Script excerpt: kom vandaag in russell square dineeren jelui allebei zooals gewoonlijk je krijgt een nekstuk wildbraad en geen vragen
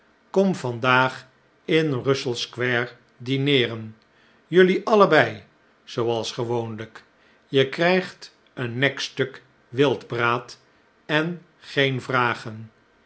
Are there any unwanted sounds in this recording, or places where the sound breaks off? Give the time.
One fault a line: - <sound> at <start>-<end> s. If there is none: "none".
none